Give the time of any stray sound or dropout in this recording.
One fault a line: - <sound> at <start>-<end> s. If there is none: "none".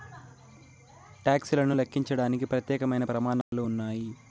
- dropout at 3.4-3.5 s